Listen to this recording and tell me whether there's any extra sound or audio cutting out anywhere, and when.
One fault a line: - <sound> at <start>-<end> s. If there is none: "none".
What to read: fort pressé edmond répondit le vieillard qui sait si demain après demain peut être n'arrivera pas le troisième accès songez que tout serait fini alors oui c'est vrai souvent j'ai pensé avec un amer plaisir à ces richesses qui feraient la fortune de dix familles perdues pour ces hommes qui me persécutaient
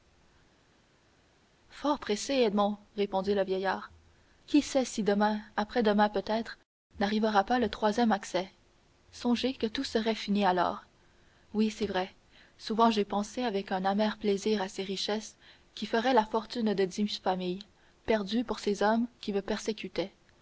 none